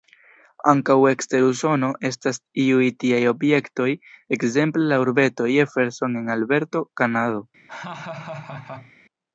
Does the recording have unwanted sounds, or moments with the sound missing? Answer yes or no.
yes